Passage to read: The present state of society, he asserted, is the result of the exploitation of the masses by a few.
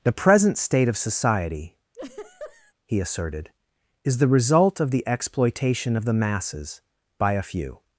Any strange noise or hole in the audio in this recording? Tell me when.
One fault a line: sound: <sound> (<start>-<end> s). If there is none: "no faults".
sound: laugh (1.9-2.7 s)